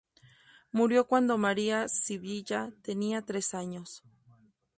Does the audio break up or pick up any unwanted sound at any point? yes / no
no